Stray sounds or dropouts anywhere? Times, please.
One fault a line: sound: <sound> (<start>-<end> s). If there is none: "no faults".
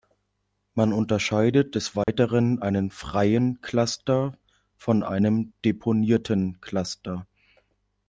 sound: dropout (2.0-2.1 s)